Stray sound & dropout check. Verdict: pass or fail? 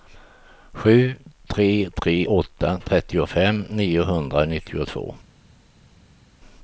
pass